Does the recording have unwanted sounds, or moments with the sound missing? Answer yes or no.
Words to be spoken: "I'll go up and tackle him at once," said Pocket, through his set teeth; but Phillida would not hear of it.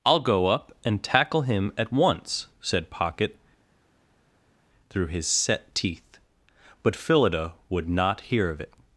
no